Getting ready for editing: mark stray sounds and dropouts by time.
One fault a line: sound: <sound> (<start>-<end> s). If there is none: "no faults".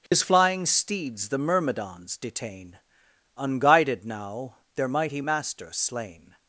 sound: dropout (0.1-0.1 s)